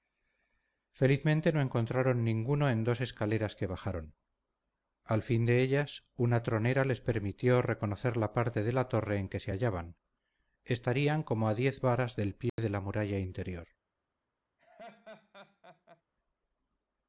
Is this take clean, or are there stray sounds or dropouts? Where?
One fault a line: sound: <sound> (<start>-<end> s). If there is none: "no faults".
sound: dropout (12.5-12.6 s)
sound: laugh (14.6-16.0 s)